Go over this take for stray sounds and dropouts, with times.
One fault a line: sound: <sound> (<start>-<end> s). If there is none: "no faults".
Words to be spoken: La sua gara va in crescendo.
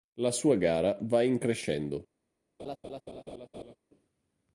sound: laugh (2.6-3.8 s)